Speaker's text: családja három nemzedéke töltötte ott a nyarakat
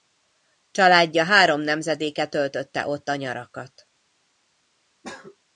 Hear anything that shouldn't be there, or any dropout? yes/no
no